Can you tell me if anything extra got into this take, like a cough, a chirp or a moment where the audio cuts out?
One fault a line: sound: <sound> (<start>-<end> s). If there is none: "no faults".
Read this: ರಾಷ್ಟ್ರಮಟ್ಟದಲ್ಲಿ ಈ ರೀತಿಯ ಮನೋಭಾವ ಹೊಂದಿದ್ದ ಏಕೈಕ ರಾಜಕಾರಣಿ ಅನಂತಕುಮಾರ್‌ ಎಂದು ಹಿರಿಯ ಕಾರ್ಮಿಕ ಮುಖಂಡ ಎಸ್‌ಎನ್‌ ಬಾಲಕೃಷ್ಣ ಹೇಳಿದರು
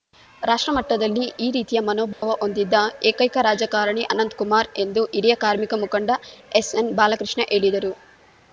sound: dropout (2.1-2.2 s)